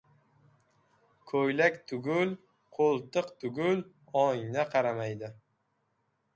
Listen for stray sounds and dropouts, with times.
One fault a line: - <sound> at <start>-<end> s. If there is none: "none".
none